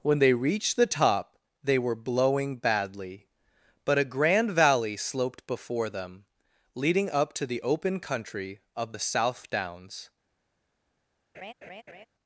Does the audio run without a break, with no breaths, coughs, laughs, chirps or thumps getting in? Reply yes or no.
no